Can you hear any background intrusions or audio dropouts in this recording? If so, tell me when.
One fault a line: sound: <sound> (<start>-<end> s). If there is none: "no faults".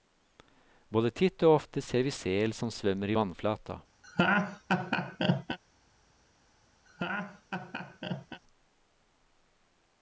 sound: laugh (4.0-5.6 s)
sound: laugh (6.9-8.4 s)